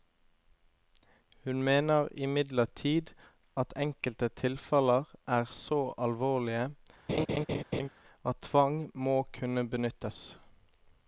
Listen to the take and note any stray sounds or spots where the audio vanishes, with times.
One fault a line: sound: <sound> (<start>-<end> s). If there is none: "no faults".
sound: laugh (7.1-7.9 s)